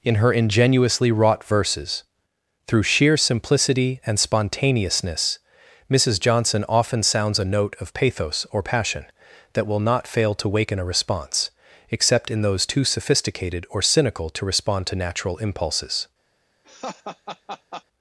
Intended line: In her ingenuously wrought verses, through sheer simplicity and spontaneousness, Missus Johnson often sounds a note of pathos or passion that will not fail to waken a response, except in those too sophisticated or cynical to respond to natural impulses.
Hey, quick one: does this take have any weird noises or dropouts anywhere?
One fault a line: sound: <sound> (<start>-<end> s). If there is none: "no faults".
sound: laugh (16.6-17.8 s)